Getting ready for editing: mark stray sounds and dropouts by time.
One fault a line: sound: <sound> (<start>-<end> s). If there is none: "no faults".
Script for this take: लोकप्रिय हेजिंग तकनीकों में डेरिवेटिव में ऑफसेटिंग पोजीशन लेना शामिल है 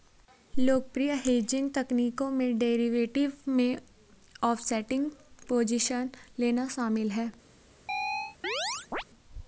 sound: chirp (7.9-9.0 s)